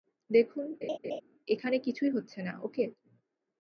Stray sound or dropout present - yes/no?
yes